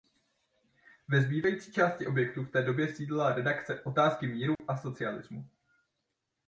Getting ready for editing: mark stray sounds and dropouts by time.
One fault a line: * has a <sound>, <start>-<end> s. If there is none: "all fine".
* has a dropout, 4.6-4.6 s